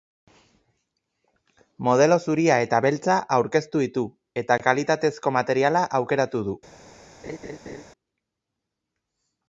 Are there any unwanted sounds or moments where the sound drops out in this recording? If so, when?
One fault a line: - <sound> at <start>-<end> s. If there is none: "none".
- laugh at 7.2-7.8 s